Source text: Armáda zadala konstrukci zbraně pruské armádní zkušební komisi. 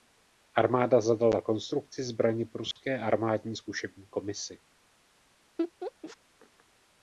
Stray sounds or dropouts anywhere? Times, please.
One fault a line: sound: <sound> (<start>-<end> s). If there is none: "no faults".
sound: dropout (2.7-2.8 s)
sound: laugh (5.6-6.2 s)